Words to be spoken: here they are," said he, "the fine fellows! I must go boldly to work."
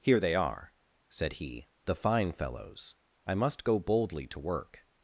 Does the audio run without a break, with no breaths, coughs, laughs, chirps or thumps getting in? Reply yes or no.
yes